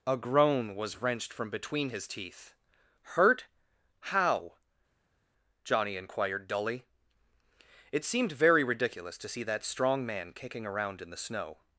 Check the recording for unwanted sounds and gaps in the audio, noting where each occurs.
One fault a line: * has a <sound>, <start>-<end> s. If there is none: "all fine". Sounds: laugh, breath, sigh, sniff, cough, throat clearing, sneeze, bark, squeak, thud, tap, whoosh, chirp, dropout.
all fine